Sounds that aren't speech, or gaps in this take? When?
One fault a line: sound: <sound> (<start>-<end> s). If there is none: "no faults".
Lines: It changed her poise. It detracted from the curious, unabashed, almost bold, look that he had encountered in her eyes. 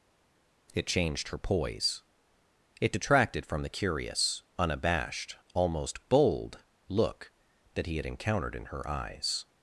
no faults